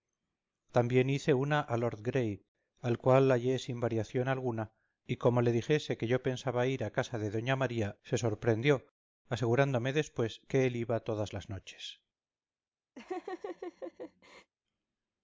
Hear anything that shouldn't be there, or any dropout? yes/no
yes